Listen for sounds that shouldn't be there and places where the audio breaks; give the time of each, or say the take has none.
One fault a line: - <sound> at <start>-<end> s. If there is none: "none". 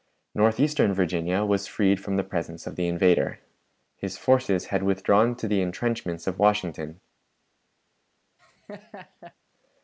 - laugh at 8.4-9.3 s